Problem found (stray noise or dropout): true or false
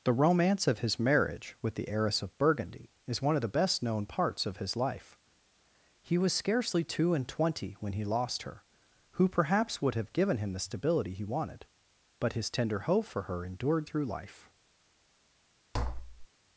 true